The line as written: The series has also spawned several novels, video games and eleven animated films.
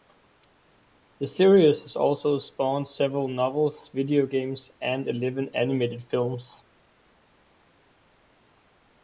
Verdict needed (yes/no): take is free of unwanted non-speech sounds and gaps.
yes